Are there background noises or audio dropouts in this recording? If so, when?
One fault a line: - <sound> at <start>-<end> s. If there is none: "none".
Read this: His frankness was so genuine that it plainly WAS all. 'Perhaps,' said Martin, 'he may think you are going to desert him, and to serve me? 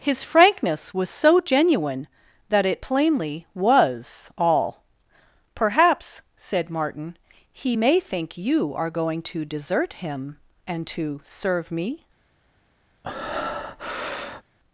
- breath at 13.0-14.4 s